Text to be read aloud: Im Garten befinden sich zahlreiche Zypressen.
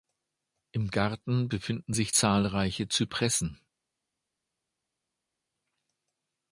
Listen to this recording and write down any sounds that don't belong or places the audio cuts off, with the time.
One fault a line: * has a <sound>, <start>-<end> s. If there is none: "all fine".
all fine